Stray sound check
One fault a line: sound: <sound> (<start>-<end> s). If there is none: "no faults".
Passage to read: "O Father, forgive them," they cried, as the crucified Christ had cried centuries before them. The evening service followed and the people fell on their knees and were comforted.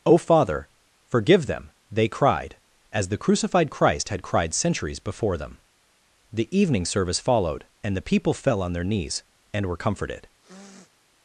sound: sniff (10.4-10.9 s)